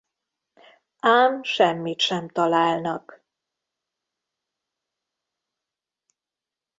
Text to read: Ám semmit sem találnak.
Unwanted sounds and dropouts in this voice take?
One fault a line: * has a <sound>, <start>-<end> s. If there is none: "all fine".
all fine